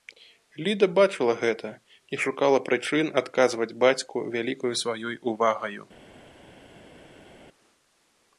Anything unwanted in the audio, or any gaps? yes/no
no